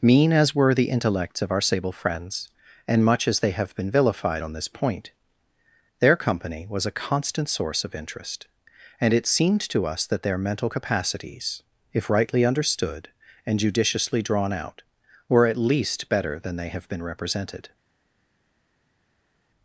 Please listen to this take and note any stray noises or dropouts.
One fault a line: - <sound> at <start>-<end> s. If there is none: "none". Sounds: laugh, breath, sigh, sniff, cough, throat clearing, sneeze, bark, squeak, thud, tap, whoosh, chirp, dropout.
none